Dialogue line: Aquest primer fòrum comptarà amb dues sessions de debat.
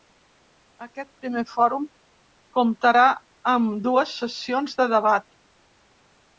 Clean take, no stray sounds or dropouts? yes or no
yes